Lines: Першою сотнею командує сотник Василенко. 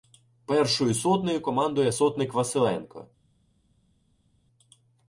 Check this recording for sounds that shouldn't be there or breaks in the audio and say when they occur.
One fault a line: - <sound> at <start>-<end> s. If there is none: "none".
none